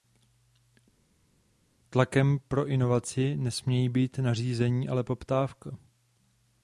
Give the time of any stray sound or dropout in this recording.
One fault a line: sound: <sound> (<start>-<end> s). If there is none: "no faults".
no faults